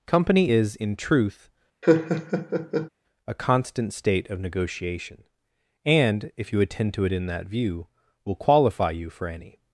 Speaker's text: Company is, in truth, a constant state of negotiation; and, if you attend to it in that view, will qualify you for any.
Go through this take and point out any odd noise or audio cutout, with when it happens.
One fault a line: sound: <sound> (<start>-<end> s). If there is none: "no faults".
sound: laugh (1.8-2.9 s)